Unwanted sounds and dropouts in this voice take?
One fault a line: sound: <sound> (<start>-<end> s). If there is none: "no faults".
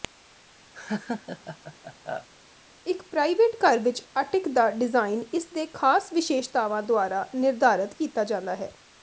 sound: laugh (0.7-2.3 s)